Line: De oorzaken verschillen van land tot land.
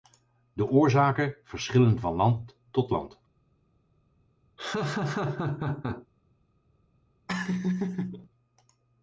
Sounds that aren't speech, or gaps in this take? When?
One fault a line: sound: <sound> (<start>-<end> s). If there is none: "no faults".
sound: laugh (4.6-6.1 s)
sound: laugh (7.3-8.3 s)